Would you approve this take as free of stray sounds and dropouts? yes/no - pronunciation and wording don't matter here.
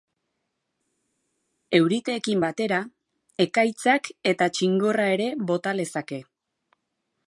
yes